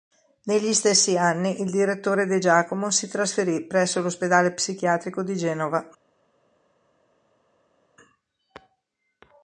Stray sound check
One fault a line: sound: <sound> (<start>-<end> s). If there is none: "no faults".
no faults